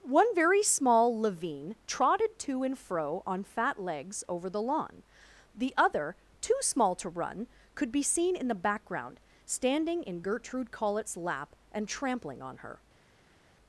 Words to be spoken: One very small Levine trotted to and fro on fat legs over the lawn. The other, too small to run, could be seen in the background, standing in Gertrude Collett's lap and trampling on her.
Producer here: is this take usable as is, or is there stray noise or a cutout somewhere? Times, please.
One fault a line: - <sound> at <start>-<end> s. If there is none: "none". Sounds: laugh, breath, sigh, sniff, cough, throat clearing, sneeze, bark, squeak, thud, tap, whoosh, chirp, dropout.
none